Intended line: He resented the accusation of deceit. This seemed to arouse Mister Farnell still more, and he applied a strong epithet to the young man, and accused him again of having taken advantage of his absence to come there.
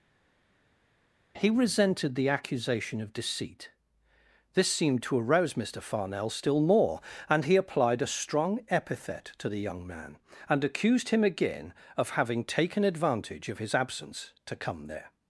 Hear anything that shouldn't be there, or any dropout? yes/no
no